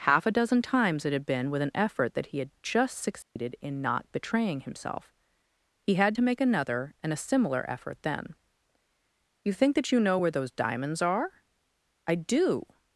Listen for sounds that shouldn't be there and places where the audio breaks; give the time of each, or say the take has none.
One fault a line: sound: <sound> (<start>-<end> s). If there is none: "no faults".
sound: dropout (3.2-3.4 s)